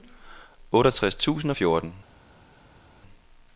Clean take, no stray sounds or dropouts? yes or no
yes